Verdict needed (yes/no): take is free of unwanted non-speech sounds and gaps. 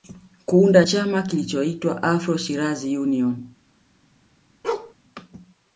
no